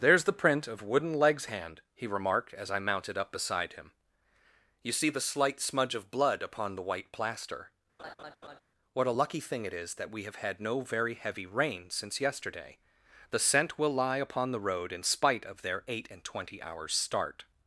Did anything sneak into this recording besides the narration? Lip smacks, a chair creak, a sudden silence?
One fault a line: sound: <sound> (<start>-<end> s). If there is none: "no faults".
sound: laugh (8.0-8.6 s)